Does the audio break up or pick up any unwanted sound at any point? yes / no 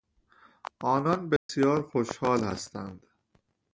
yes